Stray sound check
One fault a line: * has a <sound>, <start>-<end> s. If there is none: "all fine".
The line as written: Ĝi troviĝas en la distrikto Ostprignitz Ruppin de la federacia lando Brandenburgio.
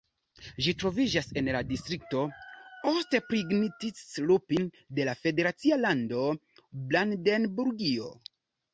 all fine